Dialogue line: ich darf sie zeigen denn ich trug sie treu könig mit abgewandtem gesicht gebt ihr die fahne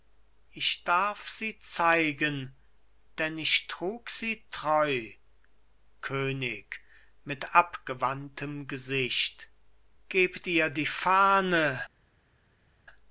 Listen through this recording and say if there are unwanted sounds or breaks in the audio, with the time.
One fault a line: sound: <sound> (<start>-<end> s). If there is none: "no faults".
no faults